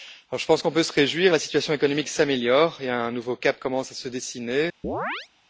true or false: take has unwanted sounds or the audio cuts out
true